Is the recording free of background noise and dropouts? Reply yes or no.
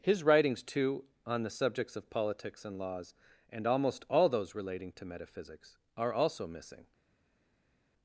yes